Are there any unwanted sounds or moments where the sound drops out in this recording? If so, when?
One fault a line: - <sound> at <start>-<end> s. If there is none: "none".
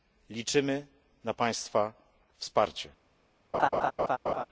- laugh at 3.5-4.5 s